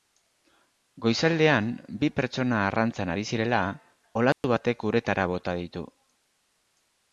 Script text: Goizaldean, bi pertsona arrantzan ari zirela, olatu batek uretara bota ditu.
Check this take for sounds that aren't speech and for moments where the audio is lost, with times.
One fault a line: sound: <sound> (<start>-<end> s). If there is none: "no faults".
sound: dropout (4.3-4.4 s)